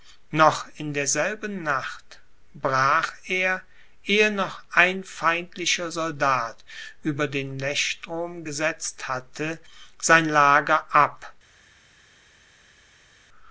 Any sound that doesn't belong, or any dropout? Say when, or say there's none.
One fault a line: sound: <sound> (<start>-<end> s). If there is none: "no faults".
no faults